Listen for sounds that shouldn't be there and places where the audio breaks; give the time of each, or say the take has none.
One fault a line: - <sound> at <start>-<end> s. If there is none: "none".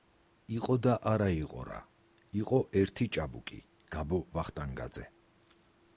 none